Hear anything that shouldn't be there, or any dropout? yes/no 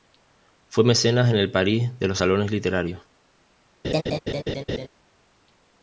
yes